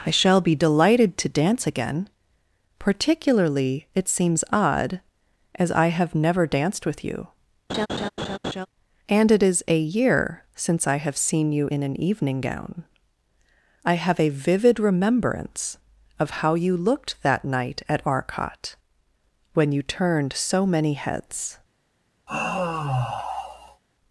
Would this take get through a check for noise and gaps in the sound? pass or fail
fail